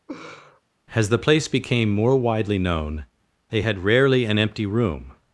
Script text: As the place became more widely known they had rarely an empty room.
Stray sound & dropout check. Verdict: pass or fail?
fail